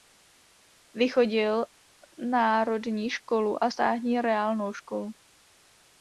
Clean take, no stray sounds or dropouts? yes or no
yes